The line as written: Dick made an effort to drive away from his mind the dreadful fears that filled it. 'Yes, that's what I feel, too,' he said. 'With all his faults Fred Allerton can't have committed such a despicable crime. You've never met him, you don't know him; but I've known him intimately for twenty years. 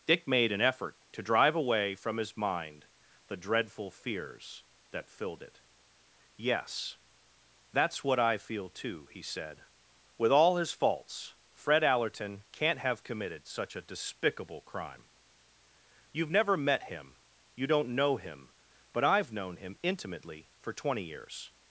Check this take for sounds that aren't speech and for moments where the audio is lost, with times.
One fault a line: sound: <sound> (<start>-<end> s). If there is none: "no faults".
no faults